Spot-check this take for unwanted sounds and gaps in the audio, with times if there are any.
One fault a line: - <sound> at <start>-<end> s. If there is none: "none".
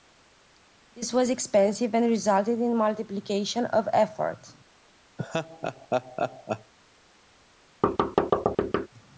- laugh at 5.2-6.7 s
- thud at 7.8-8.9 s